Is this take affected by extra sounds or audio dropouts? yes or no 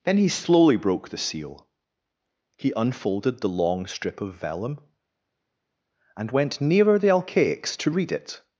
no